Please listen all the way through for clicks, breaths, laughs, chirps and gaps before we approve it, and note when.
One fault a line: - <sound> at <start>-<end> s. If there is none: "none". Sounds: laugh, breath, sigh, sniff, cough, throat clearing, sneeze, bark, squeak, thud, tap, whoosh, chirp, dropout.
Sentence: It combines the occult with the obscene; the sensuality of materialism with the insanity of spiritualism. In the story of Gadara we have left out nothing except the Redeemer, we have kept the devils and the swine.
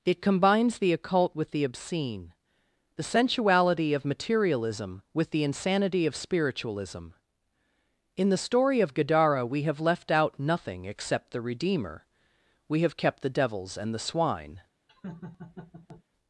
- laugh at 14.9-16.0 s